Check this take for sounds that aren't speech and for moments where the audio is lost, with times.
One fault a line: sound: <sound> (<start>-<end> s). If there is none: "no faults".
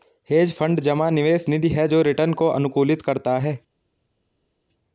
no faults